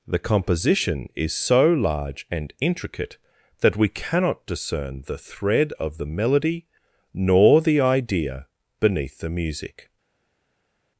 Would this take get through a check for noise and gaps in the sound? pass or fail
pass